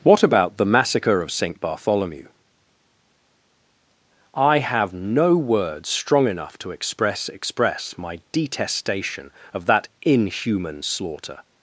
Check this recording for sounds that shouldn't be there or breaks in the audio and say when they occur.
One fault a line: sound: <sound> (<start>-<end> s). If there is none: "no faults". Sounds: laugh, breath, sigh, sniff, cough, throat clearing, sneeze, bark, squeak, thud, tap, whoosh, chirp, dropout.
no faults